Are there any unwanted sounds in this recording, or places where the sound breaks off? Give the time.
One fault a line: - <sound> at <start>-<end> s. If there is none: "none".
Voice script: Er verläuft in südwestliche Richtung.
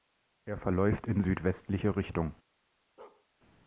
- bark at 3.0-3.3 s